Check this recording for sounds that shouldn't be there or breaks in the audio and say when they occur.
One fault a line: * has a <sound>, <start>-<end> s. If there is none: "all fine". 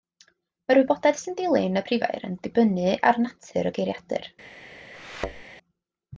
* has a thud, 4.9-5.4 s